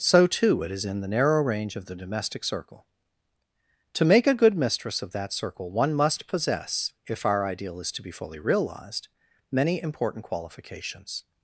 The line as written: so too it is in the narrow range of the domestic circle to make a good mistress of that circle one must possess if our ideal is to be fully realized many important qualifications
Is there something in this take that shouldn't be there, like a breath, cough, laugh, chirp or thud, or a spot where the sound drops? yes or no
no